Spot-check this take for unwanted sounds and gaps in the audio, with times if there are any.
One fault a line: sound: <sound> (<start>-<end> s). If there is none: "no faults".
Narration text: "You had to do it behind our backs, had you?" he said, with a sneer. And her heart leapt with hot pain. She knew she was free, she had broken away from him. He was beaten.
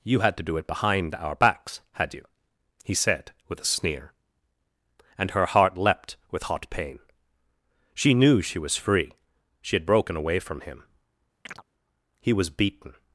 sound: chirp (11.5-11.6 s)